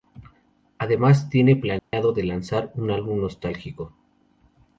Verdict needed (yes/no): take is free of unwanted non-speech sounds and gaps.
no